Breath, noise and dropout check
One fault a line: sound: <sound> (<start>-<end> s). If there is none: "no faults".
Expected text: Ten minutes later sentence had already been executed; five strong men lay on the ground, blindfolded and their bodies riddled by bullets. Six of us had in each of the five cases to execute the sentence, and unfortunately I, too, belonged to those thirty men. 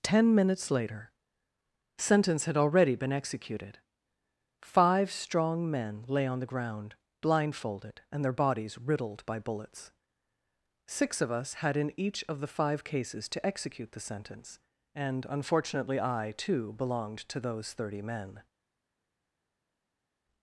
no faults